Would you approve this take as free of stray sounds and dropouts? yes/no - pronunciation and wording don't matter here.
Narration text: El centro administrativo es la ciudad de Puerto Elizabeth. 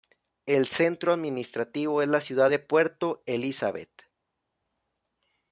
yes